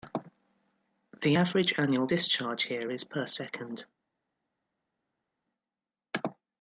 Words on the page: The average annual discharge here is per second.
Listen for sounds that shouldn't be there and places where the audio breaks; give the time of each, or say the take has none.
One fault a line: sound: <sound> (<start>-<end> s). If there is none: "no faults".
no faults